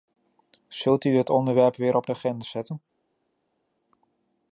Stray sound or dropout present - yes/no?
no